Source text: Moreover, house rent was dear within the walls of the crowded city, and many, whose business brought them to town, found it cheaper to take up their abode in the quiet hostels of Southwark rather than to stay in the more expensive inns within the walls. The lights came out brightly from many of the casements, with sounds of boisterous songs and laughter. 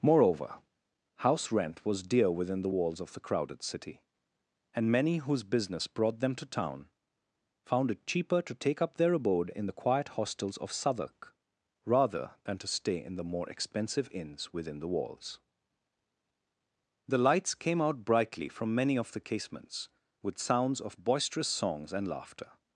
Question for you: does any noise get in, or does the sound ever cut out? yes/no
no